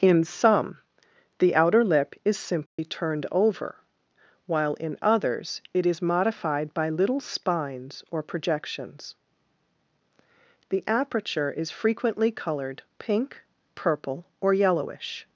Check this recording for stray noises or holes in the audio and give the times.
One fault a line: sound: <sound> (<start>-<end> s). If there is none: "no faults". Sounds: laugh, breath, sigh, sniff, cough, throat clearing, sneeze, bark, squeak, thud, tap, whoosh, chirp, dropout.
sound: dropout (2.7-2.8 s)